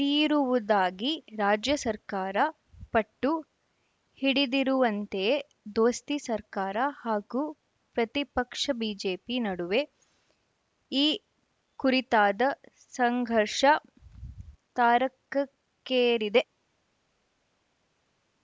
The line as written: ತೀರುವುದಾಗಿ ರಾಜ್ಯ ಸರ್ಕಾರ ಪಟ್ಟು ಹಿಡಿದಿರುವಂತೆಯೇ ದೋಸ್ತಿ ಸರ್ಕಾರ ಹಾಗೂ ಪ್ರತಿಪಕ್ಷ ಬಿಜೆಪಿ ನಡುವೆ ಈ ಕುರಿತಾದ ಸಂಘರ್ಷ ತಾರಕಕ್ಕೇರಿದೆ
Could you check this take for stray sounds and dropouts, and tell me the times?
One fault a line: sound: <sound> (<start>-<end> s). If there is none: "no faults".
no faults